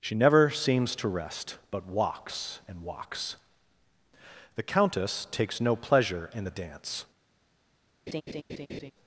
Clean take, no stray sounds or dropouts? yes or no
no